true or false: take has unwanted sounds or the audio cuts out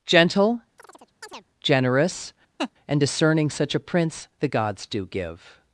true